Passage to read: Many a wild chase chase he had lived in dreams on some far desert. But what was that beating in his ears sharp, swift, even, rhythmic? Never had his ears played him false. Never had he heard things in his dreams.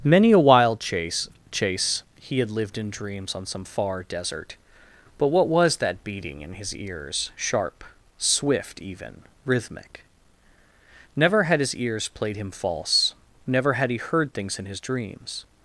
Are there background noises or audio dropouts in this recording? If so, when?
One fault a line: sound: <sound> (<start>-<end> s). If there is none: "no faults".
no faults